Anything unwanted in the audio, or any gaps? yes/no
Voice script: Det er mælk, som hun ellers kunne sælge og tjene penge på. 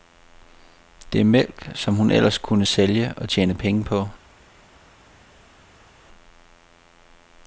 no